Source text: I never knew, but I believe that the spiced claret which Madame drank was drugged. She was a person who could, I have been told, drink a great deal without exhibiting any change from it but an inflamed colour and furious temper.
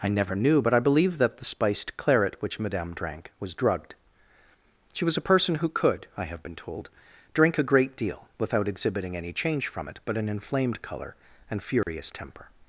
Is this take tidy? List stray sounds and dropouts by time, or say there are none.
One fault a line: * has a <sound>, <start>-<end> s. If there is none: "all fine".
* has a dropout, 11.8-11.9 s